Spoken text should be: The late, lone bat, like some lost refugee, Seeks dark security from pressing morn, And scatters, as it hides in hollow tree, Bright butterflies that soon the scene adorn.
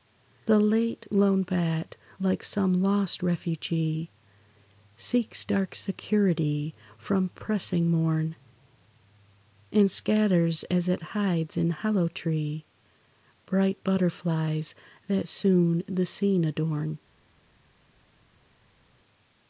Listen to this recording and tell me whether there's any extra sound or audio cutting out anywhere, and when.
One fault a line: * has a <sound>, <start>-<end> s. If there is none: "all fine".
all fine